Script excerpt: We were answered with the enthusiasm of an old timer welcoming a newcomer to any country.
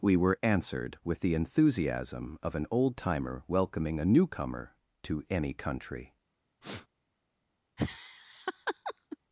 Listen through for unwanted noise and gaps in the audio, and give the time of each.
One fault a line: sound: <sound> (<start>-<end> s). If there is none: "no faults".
sound: sniff (6.6-6.9 s)
sound: laugh (7.8-9.2 s)